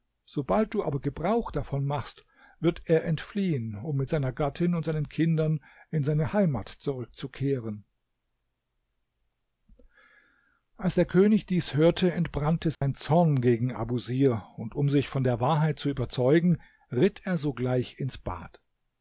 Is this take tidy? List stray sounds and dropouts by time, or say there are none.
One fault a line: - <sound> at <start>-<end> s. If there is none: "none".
- dropout at 12.7-12.8 s